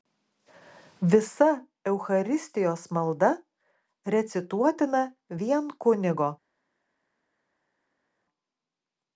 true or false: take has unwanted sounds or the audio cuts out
false